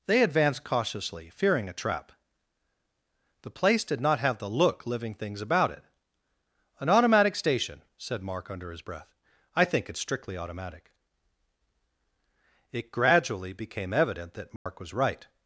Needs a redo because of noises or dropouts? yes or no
yes